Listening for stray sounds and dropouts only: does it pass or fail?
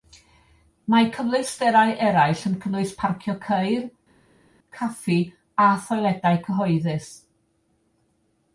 pass